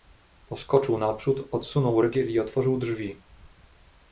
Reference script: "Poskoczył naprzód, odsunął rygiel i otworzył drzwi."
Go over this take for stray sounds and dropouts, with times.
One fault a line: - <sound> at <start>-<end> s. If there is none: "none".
none